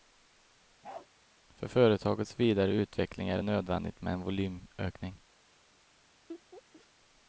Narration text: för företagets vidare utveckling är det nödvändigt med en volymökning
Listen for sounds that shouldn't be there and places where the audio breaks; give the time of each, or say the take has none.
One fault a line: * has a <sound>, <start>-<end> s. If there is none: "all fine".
* has a bark, 0.8-1.1 s
* has a laugh, 6.3-6.9 s